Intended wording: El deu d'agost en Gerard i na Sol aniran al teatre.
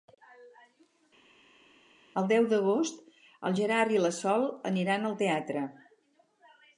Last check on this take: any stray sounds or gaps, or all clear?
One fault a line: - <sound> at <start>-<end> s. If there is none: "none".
none